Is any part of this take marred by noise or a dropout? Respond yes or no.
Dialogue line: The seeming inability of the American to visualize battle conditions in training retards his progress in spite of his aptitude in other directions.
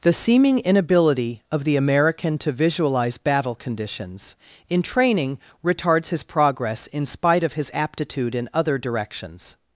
no